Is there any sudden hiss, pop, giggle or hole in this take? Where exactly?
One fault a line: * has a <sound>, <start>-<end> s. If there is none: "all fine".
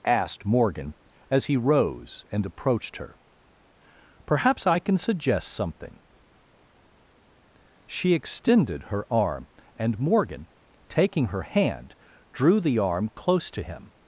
all fine